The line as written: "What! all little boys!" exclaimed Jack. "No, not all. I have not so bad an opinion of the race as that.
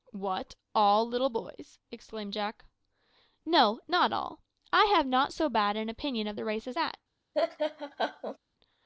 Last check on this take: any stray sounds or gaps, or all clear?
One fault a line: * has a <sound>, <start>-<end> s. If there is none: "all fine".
* has a laugh, 7.3-8.4 s